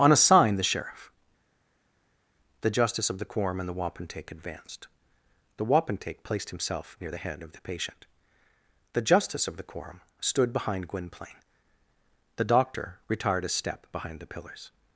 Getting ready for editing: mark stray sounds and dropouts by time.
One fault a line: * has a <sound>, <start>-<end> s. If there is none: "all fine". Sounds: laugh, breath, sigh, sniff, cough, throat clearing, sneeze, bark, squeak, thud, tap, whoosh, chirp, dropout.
all fine